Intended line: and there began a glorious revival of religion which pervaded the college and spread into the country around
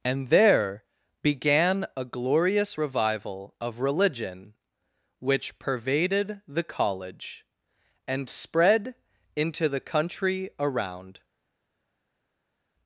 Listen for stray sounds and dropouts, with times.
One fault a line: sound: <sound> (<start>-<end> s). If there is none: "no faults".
no faults